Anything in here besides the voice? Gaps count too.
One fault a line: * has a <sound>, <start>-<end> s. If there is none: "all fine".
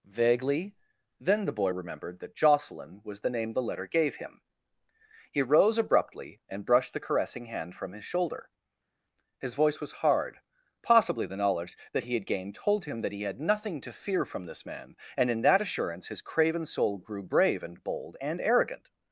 all fine